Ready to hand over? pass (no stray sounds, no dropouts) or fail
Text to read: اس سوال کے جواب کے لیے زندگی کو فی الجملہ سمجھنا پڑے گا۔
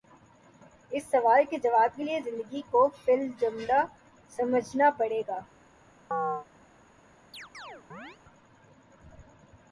fail